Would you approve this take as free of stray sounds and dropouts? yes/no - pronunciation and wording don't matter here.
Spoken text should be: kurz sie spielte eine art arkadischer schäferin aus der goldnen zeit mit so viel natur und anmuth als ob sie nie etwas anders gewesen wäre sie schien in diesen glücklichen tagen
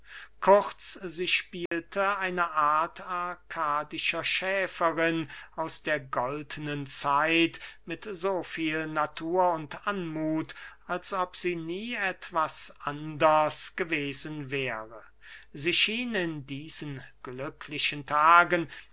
no